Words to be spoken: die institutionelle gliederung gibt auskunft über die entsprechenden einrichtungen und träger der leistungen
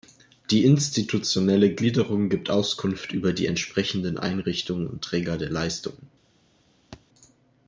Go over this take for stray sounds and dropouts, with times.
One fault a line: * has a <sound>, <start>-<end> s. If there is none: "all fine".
* has a thud, 6.9-7.0 s